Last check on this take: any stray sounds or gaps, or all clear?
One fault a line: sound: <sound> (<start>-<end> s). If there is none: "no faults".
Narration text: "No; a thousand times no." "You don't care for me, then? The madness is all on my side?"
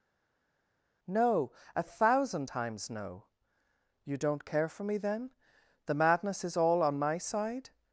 no faults